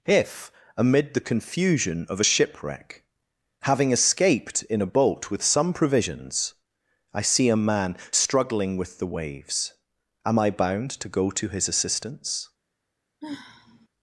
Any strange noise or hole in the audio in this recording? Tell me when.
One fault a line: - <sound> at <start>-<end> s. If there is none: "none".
- sigh at 13.2-13.9 s